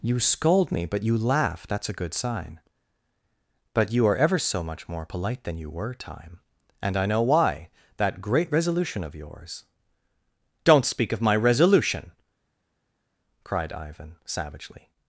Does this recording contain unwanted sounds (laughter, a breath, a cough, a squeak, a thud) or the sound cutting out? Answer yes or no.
no